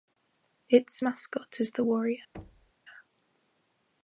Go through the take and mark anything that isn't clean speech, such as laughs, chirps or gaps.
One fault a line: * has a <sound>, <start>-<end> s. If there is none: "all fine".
* has a thud, 2.3-2.7 s